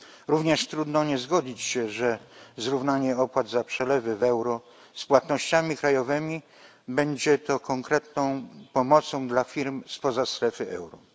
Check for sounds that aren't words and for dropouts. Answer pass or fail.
pass